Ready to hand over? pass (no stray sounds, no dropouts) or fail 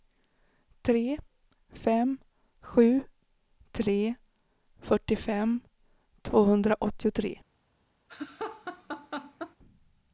fail